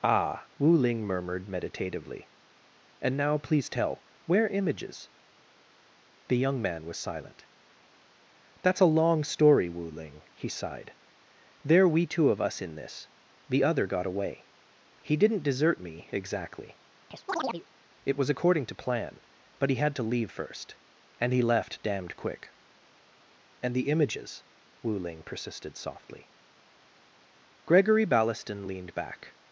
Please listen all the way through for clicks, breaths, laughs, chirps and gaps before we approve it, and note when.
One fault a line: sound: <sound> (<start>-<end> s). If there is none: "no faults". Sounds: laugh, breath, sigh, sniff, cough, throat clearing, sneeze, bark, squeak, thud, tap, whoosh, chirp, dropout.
sound: chirp (17.1-17.7 s)